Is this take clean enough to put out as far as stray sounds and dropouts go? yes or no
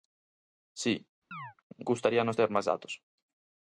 no